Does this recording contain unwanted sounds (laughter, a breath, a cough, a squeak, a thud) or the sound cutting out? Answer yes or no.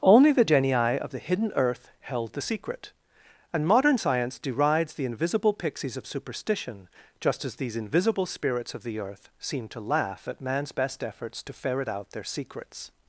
no